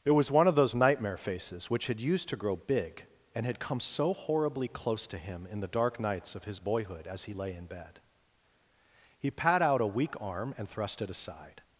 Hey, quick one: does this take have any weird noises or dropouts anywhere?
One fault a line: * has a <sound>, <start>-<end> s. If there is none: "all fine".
all fine